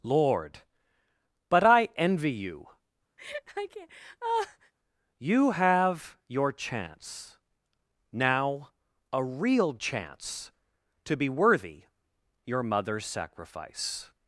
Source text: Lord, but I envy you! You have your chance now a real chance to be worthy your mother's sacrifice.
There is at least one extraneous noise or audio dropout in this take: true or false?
true